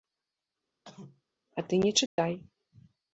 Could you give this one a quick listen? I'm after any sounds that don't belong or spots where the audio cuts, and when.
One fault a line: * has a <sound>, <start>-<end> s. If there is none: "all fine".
* has a cough, 0.8-1.2 s
* has a dropout, 2.1-2.2 s